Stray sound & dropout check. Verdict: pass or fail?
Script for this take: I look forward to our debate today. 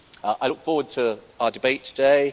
pass